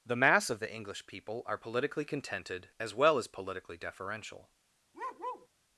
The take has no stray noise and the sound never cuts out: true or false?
false